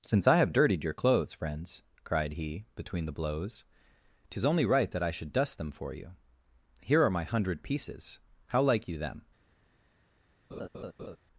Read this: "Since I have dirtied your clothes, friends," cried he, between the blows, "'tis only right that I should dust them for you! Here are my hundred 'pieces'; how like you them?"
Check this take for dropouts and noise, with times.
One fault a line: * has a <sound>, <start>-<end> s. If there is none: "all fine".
* has a laugh, 10.5-11.2 s